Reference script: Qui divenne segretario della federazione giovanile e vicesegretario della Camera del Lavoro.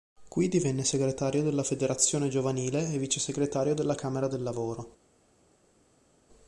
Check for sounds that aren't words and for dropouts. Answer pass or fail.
pass